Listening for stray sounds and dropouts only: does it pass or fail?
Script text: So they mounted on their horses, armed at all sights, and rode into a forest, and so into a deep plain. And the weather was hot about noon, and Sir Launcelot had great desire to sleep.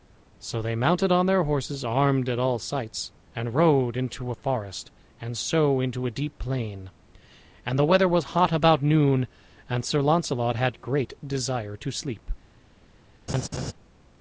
fail